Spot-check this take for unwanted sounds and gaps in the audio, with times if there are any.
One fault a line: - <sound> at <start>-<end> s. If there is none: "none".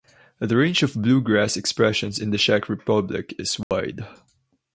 - dropout at 3.6-3.7 s